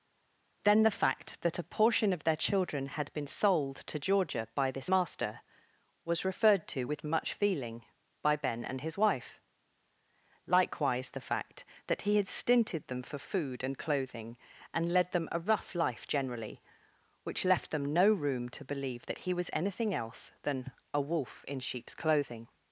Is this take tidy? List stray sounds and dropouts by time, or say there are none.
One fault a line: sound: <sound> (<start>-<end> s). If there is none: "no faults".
no faults